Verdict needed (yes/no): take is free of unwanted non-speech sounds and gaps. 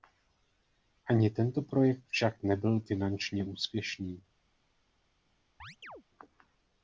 no